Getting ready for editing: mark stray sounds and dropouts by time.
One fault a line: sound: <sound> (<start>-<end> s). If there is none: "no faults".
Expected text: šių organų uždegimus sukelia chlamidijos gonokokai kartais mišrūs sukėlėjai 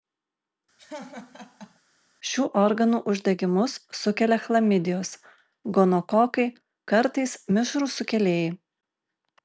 sound: laugh (0.8-1.8 s)